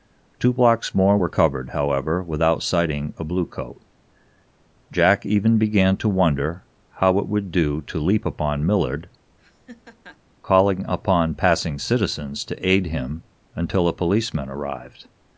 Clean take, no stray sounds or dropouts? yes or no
no